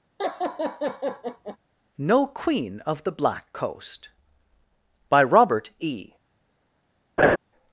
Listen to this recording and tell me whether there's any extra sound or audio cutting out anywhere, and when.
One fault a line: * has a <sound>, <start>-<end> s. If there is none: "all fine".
* has a laugh, 0.2-1.6 s
* has a laugh, 7.2-7.4 s